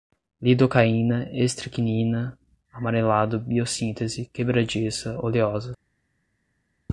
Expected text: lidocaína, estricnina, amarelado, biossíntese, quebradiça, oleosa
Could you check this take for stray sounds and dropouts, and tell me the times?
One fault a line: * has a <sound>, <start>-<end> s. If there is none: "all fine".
all fine